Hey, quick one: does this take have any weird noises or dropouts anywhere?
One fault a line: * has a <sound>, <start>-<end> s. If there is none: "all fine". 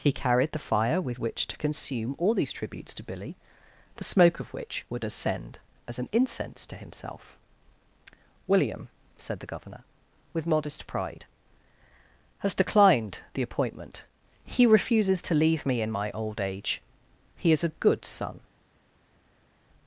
all fine